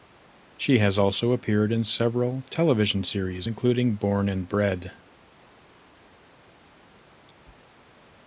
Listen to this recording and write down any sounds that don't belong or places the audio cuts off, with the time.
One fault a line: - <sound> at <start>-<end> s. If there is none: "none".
none